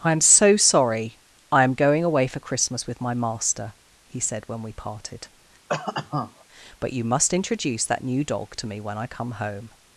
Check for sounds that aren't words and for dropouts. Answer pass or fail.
fail